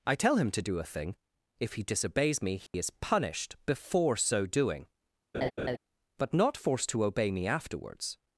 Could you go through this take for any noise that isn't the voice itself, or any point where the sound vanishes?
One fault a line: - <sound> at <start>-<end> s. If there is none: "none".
- dropout at 2.7-2.7 s
- laugh at 5.3-5.8 s